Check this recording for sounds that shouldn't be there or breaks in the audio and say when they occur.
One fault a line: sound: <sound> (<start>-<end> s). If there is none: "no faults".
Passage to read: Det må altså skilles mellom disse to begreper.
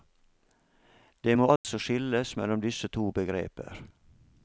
sound: dropout (1.6-1.6 s)